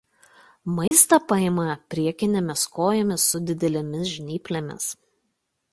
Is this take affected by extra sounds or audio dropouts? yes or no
yes